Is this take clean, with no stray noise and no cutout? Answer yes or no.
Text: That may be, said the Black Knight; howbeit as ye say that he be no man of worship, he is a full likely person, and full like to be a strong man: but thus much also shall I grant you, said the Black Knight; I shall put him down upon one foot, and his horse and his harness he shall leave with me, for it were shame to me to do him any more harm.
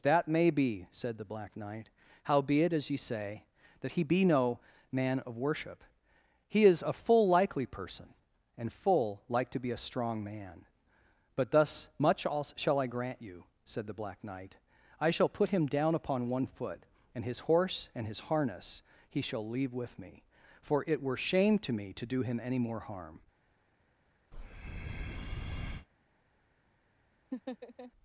no